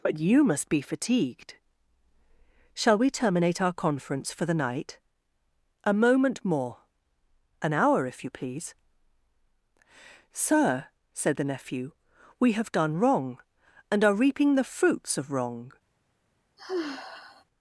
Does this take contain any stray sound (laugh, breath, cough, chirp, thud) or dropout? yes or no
yes